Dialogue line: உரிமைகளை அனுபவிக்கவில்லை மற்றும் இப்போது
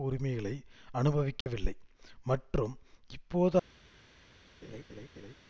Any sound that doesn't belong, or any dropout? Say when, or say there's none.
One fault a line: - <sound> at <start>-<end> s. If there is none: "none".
- dropout at 1.4-1.5 s
- laugh at 4.6-5.3 s